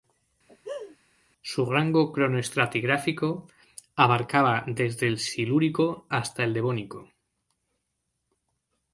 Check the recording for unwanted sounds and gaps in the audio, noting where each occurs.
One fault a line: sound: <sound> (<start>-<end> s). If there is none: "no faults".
sound: laugh (0.5-1.0 s)